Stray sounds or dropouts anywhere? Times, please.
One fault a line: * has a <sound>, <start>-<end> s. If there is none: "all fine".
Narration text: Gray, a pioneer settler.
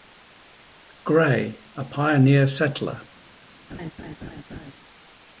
* has a laugh, 3.7-4.7 s